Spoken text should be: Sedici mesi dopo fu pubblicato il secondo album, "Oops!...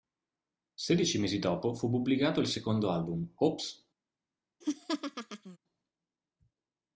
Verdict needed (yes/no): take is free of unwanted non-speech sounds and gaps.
no